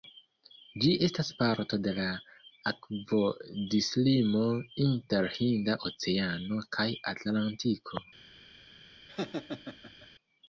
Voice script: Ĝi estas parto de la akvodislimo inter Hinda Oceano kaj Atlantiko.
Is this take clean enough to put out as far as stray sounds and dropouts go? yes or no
no